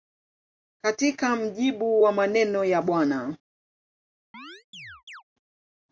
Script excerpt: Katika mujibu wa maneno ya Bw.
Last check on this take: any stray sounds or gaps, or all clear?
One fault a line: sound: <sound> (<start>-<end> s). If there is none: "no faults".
sound: chirp (4.3-5.2 s)